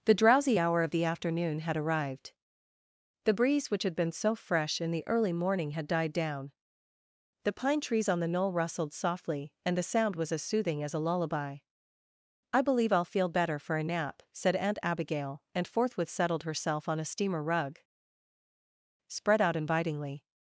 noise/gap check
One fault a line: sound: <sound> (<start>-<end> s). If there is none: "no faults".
no faults